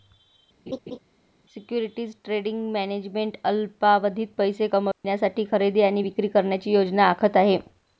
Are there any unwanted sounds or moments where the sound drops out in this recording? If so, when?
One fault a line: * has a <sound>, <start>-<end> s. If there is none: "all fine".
* has a laugh, 0.7-1.0 s
* has a dropout, 4.9-5.0 s